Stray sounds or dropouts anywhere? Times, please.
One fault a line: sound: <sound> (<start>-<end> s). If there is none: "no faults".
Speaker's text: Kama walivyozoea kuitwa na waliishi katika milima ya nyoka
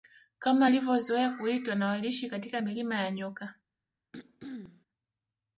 sound: throat clearing (4.1-4.9 s)